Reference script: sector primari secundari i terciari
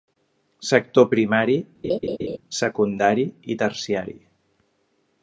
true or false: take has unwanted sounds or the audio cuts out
true